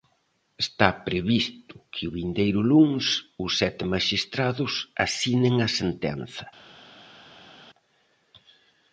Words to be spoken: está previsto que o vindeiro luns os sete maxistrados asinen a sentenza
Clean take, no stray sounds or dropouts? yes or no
yes